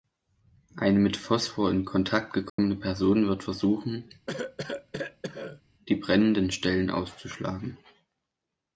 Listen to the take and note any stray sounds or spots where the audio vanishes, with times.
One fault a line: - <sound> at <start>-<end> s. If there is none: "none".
- dropout at 2.5-2.6 s
- cough at 4.3-5.6 s